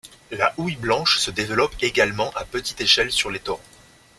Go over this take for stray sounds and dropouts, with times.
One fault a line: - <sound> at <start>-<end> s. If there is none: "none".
none